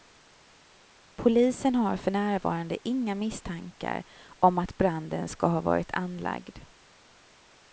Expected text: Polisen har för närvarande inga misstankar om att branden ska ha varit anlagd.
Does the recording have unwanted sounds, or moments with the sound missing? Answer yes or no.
no